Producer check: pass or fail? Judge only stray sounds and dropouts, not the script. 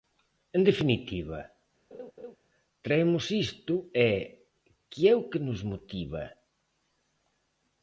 fail